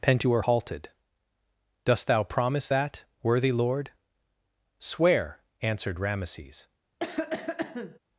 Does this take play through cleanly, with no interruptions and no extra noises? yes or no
no